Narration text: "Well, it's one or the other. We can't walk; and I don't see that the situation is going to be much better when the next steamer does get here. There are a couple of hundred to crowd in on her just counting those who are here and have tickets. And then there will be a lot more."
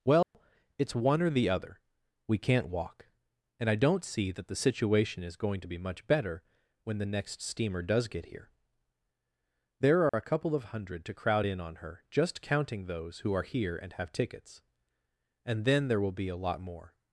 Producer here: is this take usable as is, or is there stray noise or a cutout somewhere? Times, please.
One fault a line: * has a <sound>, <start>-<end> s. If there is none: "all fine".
* has a dropout, 0.2-0.3 s
* has a dropout, 10.1-10.1 s